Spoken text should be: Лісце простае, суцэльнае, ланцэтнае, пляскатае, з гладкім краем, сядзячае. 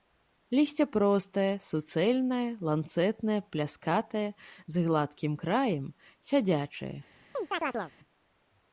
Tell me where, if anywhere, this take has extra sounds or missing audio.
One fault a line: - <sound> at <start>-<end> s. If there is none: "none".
- chirp at 7.3-7.9 s